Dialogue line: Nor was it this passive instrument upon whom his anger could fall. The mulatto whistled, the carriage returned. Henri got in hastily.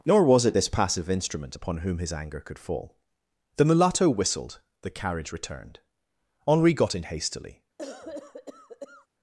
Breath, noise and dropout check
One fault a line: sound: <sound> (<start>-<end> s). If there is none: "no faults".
sound: cough (7.8-9.1 s)